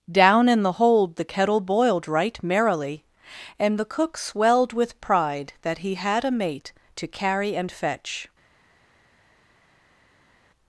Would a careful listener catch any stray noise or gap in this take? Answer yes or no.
no